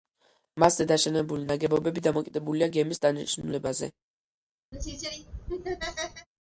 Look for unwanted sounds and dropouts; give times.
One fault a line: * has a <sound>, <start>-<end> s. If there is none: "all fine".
* has a laugh, 4.7-6.3 s